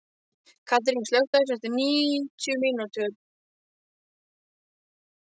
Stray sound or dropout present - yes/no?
no